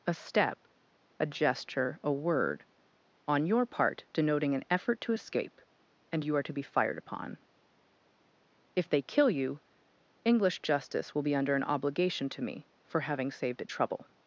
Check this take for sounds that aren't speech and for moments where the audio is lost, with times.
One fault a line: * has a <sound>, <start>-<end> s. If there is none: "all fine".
all fine